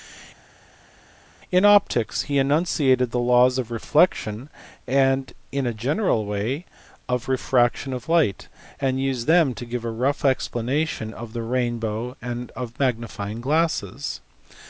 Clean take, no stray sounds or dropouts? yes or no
yes